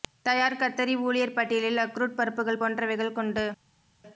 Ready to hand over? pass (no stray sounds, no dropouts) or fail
pass